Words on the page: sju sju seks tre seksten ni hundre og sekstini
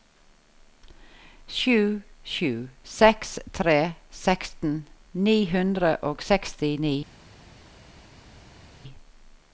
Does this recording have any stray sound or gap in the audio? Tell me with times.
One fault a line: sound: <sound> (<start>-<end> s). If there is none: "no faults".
no faults